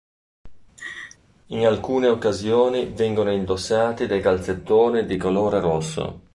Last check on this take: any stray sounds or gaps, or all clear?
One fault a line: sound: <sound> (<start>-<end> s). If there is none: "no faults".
sound: laugh (0.8-1.2 s)